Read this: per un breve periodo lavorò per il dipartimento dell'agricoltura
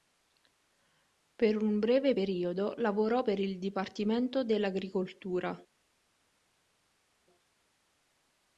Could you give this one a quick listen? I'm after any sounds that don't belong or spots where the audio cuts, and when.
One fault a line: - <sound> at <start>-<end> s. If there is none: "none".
none